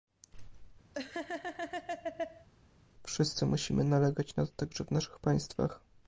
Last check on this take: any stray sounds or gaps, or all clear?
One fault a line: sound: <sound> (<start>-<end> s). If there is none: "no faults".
sound: laugh (0.9-2.5 s)